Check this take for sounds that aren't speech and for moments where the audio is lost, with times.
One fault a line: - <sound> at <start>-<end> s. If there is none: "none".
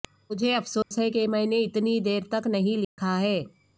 - dropout at 0.8-0.9 s
- dropout at 2.8-3.0 s